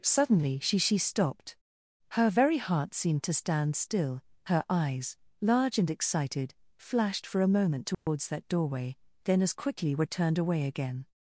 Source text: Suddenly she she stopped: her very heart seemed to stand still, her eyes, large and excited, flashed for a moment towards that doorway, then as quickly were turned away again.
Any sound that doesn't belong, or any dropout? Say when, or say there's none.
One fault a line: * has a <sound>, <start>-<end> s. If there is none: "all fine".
* has a dropout, 7.9-8.1 s